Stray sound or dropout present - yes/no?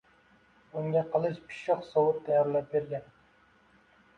no